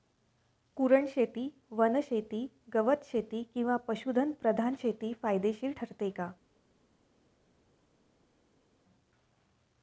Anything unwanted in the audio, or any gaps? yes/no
no